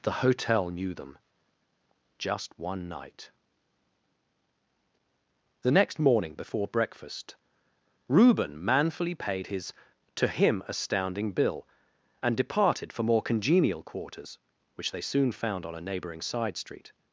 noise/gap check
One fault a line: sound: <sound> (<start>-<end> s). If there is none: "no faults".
no faults